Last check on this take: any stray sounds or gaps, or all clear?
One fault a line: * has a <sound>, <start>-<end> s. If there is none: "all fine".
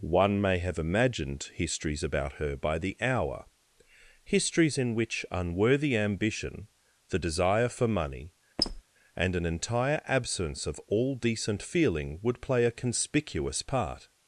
* has a squeak, 8.6-8.8 s